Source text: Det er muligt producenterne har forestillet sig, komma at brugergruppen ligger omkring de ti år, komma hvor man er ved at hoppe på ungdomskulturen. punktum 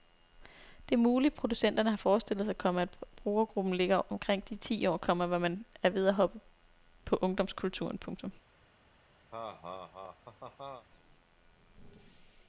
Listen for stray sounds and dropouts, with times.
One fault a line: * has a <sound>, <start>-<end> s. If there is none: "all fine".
* has a laugh, 9.3-10.9 s